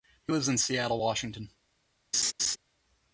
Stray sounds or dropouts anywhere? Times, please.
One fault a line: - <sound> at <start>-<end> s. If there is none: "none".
- laugh at 2.1-2.6 s